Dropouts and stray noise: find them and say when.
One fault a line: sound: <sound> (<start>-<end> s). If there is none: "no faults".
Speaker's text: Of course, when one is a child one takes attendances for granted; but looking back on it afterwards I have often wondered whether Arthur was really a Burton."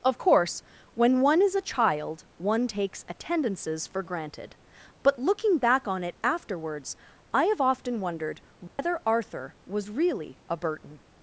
sound: dropout (8.7-8.8 s)